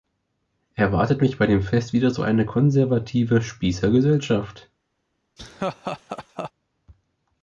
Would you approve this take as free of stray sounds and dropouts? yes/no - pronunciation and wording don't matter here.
no